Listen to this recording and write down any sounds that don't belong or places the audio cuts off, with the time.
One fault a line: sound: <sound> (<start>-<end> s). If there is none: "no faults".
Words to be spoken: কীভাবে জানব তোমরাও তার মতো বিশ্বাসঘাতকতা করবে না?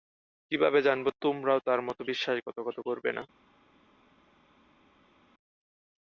no faults